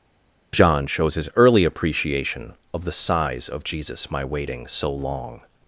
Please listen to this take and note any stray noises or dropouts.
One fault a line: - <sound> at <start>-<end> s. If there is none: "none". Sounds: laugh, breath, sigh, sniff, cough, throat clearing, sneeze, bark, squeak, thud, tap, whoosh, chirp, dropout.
none